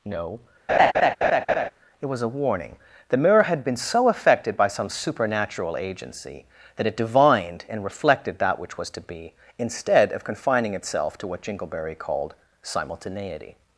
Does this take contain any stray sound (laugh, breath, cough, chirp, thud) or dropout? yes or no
yes